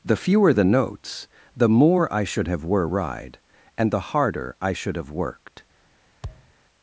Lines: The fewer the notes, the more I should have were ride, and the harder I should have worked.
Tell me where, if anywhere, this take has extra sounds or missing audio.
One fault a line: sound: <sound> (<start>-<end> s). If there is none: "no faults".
sound: thud (6.2-6.5 s)